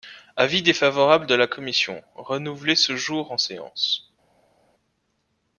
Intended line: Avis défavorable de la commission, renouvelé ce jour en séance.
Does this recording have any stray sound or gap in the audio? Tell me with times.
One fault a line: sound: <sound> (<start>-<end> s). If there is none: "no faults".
no faults